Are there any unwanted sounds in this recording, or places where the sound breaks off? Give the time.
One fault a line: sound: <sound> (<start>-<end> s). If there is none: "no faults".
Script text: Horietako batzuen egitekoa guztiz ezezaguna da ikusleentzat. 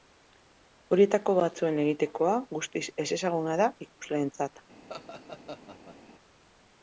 sound: laugh (4.9-6.0 s)